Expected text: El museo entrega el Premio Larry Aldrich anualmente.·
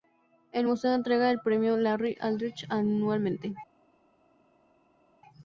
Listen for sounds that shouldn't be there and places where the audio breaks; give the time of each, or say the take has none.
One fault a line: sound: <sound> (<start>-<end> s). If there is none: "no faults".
no faults